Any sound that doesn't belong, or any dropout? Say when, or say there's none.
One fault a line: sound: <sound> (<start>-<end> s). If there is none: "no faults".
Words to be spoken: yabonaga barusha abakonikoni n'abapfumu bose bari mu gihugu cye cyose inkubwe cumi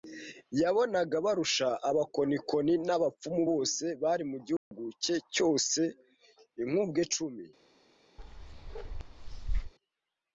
sound: dropout (4.6-4.7 s)
sound: bark (8.2-9.7 s)